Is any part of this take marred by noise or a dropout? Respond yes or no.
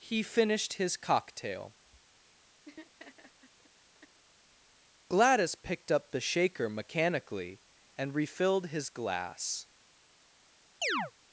yes